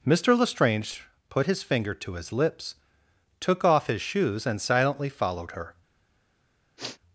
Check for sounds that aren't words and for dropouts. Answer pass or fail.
fail